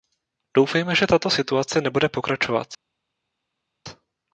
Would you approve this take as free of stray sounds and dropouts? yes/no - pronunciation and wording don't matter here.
yes